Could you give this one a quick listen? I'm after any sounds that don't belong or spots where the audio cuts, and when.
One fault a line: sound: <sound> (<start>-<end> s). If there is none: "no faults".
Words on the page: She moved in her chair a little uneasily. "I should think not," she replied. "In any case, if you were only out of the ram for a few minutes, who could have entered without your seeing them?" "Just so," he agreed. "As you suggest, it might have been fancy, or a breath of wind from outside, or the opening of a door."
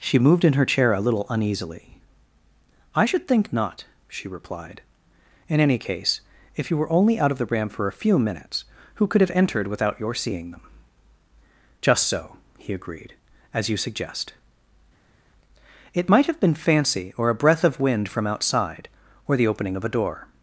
no faults